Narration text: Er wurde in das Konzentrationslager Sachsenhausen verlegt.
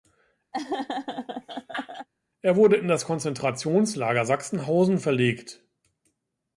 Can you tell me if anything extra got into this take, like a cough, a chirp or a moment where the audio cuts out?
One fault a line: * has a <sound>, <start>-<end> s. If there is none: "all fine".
* has a laugh, 0.5-2.1 s